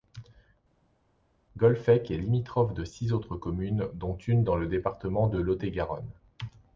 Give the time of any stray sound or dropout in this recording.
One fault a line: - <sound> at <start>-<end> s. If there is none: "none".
none